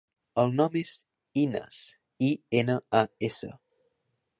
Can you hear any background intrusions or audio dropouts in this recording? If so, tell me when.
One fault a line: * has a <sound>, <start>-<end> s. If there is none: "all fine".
all fine